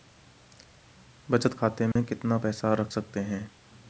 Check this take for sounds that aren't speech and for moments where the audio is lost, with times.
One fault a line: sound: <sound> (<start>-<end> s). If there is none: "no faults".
sound: dropout (1.9-2.0 s)